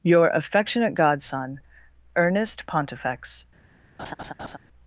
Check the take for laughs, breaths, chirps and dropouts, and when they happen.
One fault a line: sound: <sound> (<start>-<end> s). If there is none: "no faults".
sound: laugh (4.0-4.6 s)